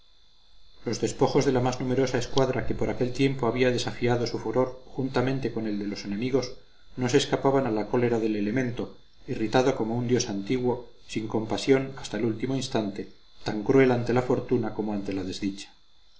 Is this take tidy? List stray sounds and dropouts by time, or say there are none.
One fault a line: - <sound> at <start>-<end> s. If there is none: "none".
none